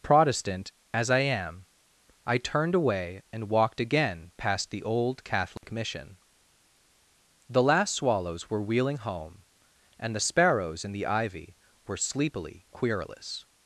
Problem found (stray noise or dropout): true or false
true